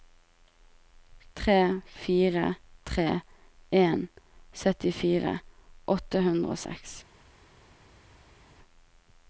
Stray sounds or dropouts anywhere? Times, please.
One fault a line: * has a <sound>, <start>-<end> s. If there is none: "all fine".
all fine